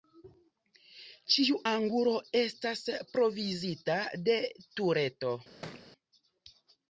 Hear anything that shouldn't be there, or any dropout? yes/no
yes